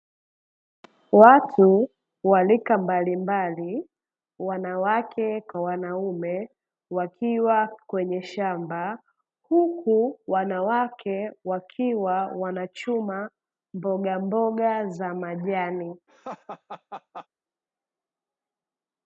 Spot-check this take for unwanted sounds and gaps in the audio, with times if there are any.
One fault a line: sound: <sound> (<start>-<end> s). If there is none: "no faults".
sound: laugh (16.1-17.3 s)